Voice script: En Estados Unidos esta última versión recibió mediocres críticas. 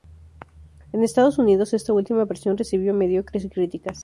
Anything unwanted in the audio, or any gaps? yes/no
no